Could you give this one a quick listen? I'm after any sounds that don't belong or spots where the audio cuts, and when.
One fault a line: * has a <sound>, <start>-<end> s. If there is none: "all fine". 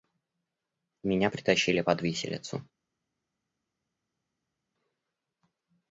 all fine